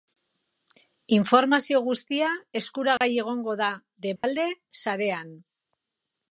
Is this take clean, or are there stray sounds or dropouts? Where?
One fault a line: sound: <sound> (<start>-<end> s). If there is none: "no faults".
sound: dropout (3.0-3.0 s)
sound: dropout (4.2-4.2 s)